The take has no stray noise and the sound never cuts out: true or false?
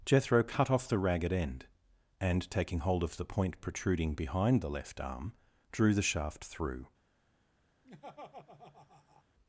false